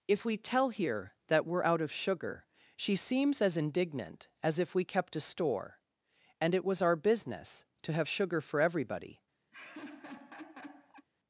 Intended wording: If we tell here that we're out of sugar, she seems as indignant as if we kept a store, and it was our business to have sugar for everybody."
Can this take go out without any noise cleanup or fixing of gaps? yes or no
no